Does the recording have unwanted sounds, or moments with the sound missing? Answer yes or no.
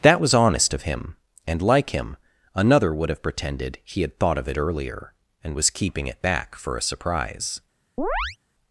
yes